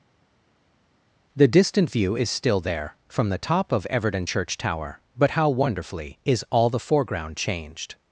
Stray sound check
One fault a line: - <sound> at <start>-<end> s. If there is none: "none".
none